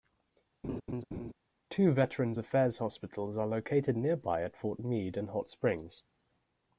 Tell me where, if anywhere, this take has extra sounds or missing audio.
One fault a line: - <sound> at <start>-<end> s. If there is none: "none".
- laugh at 0.6-1.3 s